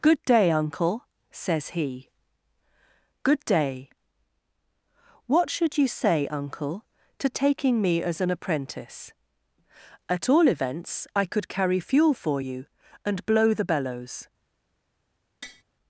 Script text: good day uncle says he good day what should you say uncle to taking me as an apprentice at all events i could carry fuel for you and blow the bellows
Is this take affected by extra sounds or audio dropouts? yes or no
yes